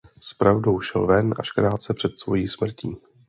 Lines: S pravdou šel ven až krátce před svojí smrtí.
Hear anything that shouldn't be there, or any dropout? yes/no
no